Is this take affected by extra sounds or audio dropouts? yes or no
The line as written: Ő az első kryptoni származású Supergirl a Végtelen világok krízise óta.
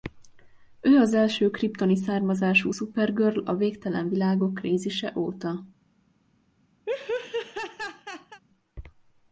yes